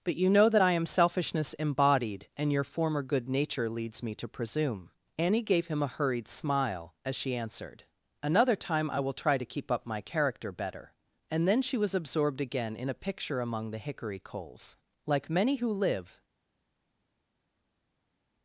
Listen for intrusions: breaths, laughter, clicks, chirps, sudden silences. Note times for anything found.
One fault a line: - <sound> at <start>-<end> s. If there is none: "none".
none